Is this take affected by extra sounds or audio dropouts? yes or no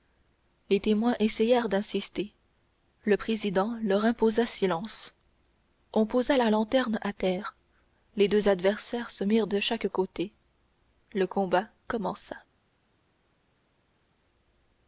no